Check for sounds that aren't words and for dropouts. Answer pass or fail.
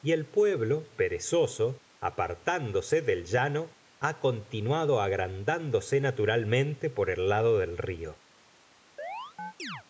fail